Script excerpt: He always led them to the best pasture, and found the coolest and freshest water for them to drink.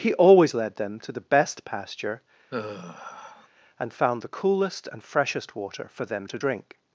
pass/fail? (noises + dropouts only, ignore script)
fail